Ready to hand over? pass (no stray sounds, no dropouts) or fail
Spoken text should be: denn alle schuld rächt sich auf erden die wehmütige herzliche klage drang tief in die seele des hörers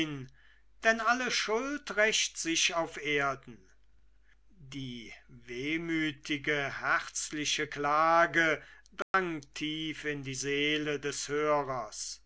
fail